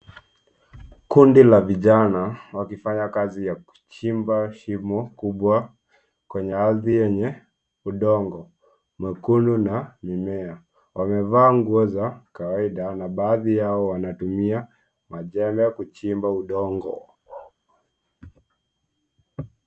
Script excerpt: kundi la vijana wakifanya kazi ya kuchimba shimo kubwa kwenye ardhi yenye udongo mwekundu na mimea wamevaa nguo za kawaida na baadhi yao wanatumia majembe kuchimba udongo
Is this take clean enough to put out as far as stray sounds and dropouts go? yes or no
no